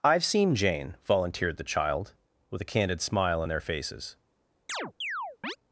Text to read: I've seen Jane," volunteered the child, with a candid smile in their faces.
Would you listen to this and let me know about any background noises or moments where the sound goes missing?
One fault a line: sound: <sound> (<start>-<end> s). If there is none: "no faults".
sound: chirp (4.7-5.6 s)